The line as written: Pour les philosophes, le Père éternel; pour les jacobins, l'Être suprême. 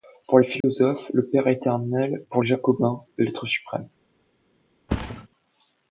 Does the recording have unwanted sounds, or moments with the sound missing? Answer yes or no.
yes